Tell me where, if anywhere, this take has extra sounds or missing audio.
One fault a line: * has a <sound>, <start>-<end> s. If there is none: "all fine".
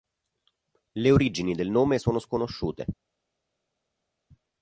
all fine